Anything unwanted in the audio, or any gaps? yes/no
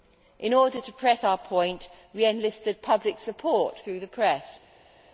no